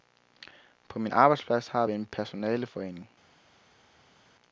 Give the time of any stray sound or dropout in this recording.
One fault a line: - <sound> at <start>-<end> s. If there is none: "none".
none